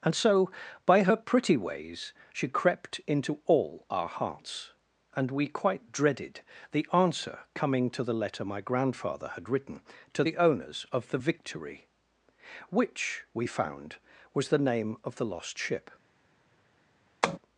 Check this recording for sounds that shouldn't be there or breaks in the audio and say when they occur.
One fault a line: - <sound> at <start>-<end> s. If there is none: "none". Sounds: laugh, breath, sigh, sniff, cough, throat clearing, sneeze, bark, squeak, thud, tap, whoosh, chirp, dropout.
- tap at 17.2-17.4 s